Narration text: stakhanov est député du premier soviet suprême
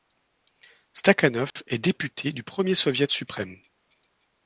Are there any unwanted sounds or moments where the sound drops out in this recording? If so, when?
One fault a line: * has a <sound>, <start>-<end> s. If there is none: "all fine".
* has a dropout, 1.5-1.6 s